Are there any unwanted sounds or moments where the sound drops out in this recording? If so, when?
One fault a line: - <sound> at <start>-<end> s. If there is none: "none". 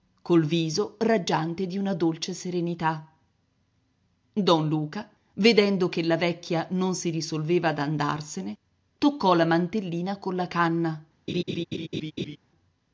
- laugh at 11.3-12.4 s